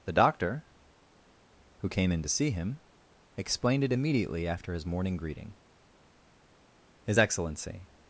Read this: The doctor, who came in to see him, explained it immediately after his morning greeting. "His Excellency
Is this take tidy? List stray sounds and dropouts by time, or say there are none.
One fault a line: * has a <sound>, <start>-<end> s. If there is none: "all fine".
all fine